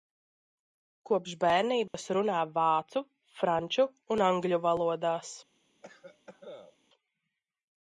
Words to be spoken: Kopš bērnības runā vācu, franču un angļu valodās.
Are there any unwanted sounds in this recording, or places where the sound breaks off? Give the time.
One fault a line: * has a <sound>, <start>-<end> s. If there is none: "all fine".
* has a dropout, 1.9-1.9 s
* has a cough, 5.8-6.8 s